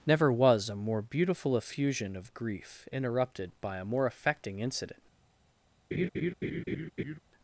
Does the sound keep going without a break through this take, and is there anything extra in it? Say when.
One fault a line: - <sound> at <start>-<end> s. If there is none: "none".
- laugh at 5.9-7.2 s